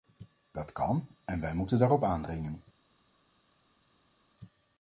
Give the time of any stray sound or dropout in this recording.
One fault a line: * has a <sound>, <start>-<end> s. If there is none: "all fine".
all fine